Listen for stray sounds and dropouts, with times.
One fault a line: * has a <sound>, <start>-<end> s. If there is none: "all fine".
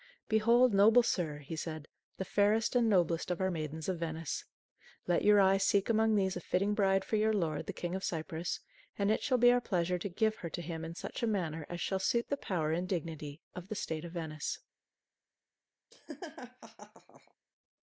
* has a laugh, 15.9-17.3 s